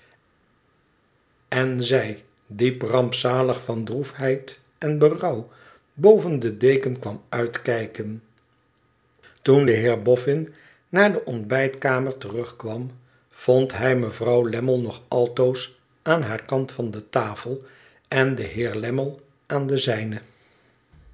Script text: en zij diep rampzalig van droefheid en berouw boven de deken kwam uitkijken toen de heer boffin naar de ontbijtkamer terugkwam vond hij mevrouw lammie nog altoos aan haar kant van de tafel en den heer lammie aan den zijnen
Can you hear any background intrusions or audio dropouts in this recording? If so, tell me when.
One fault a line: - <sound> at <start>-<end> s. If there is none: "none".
none